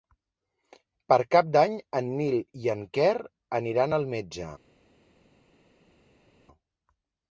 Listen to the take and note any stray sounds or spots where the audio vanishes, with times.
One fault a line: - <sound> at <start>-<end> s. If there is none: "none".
none